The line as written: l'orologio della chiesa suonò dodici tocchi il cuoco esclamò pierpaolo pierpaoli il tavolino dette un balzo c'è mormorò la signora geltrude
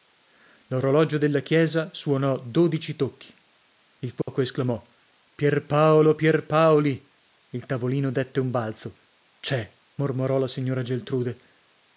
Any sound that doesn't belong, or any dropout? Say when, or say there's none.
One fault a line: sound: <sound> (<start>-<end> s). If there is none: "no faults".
sound: dropout (4.2-4.3 s)